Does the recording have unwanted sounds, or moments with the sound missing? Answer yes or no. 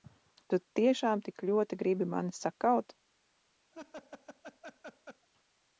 yes